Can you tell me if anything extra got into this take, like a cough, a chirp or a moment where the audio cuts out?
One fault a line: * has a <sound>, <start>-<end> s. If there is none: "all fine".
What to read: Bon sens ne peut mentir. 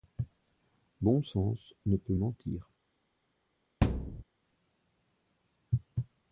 * has a thud, 3.8-4.2 s